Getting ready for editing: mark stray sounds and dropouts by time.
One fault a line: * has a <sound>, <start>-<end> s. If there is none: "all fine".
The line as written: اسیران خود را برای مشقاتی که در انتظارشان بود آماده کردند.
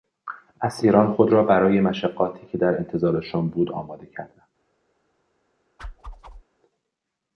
* has a whoosh, 5.8-6.4 s